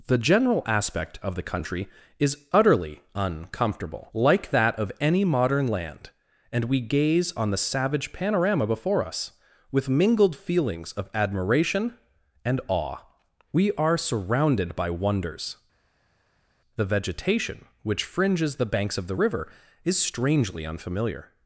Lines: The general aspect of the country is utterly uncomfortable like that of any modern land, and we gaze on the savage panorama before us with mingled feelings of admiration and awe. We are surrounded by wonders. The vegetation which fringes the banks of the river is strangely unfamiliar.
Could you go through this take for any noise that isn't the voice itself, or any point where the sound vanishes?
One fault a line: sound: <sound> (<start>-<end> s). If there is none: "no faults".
no faults